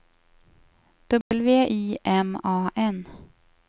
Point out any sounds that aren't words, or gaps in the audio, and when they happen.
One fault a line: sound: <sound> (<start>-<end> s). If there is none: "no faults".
sound: dropout (1.2-1.3 s)